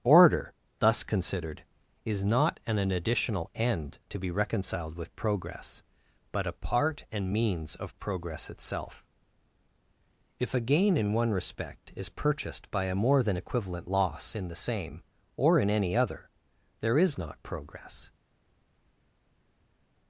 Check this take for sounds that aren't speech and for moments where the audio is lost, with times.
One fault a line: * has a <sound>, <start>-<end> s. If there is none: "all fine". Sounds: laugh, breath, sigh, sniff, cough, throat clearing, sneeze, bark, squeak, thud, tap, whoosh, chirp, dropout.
all fine